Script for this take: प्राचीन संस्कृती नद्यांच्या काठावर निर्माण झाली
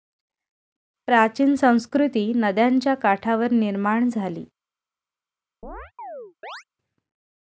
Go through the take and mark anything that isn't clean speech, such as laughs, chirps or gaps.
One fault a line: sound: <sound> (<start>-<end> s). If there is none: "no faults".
sound: chirp (5.6-6.6 s)